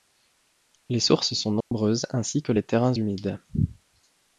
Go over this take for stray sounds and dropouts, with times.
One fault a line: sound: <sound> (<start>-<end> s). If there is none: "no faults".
sound: dropout (1.6-1.7 s)